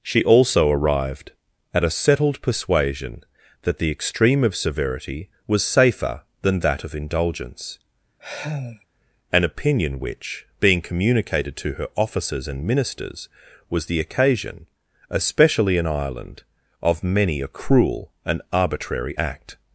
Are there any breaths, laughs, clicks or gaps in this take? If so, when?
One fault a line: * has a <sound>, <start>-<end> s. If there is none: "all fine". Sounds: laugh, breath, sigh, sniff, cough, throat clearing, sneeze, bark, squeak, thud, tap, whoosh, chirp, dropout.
* has a sigh, 8.2-8.9 s